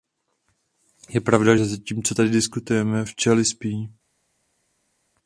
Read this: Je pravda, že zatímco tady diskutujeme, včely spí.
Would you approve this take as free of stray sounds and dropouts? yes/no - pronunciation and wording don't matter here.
yes